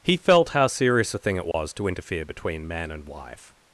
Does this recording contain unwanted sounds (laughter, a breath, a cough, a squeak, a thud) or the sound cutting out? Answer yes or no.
yes